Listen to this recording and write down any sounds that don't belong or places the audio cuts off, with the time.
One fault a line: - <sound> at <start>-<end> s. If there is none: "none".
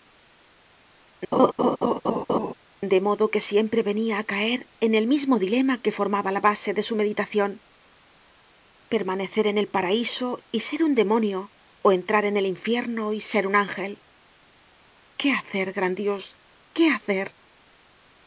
- laugh at 1.3-2.5 s